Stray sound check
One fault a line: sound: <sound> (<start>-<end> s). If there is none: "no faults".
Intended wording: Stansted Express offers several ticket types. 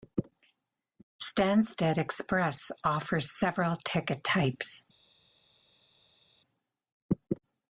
no faults